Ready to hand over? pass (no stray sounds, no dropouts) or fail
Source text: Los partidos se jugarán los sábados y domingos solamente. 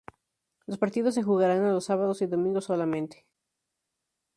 pass